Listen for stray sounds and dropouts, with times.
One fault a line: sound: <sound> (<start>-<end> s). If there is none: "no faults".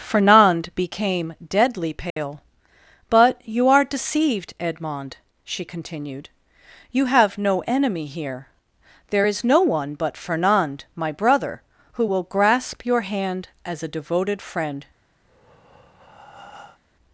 sound: dropout (2.1-2.2 s)
sound: breath (15.2-16.8 s)